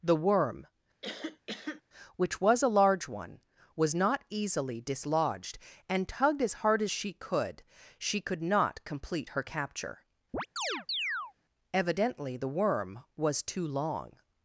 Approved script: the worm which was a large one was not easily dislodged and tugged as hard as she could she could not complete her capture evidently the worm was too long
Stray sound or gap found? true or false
true